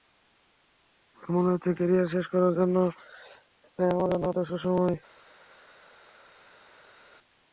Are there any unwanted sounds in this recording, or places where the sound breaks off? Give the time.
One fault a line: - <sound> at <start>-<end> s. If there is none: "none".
none